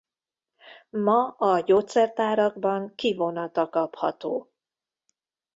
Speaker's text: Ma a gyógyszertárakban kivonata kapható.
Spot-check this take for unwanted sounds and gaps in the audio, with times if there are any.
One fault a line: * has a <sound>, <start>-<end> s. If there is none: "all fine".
all fine